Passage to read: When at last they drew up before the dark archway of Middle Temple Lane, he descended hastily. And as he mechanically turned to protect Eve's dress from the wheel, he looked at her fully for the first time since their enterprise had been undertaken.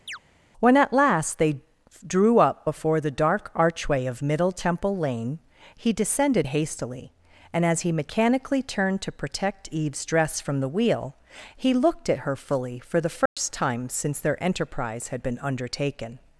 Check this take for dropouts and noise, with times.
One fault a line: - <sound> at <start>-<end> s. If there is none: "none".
- chirp at 0.1-0.2 s
- dropout at 13.3-13.4 s